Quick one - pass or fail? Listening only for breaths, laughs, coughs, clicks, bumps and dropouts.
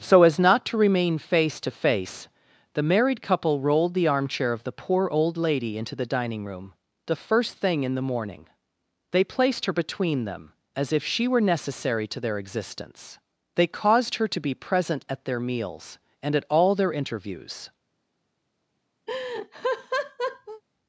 fail